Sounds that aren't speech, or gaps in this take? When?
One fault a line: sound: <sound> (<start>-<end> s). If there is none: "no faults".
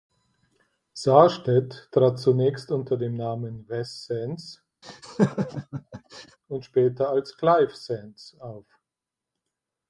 sound: laugh (4.8-6.4 s)